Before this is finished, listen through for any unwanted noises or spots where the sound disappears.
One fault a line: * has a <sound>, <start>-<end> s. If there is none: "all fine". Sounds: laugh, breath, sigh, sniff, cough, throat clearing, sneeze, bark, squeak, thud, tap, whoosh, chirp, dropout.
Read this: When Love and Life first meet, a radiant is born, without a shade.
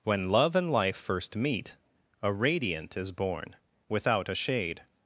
all fine